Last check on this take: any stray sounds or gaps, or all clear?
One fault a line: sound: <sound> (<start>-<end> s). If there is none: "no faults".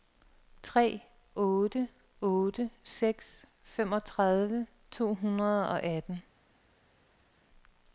no faults